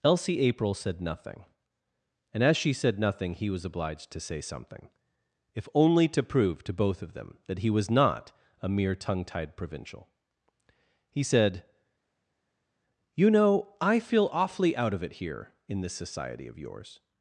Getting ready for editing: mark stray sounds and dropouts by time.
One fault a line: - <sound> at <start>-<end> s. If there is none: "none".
none